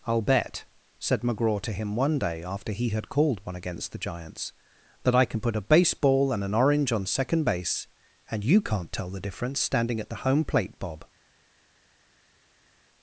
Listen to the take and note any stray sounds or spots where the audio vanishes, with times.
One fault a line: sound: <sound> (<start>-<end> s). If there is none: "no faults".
no faults